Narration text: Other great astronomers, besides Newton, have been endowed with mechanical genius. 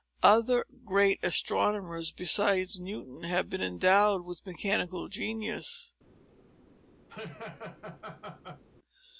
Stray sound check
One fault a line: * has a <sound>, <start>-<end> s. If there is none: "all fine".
* has a laugh, 7.1-8.6 s